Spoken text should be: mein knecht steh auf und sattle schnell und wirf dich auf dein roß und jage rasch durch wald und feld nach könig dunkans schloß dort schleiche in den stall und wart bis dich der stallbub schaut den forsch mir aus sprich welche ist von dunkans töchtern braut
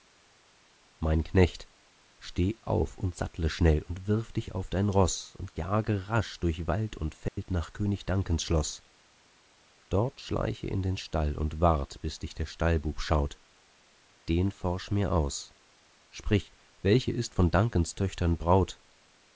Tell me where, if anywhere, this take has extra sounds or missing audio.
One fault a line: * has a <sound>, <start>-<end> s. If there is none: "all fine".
* has a dropout, 7.3-7.4 s